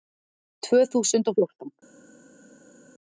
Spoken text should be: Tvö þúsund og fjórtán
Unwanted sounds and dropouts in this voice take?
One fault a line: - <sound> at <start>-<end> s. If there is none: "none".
none